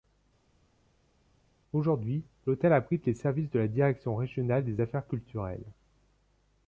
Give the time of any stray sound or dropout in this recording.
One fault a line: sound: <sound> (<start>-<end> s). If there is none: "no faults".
no faults